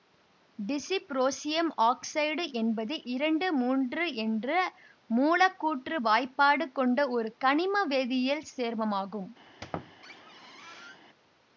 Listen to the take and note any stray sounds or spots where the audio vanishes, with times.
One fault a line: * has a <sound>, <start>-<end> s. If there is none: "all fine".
* has a squeak, 9.5-11.0 s